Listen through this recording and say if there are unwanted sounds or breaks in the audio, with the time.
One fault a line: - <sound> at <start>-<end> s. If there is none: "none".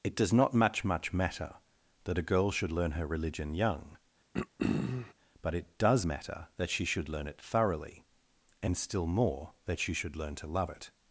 - throat clearing at 4.3-5.1 s